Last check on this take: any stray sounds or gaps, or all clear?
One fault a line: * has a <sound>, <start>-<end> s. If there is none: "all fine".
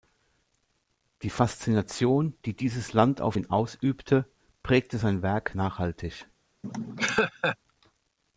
* has a laugh, 6.6-7.6 s